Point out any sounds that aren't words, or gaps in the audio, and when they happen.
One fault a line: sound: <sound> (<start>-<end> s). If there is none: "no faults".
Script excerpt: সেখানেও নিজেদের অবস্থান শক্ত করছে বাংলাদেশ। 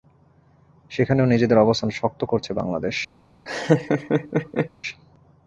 sound: laugh (3.5-4.7 s)